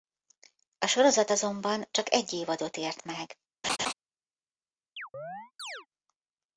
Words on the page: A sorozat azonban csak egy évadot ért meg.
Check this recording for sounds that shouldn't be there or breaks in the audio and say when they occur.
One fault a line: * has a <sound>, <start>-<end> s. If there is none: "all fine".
* has a laugh, 3.6-3.9 s
* has a chirp, 5.0-5.9 s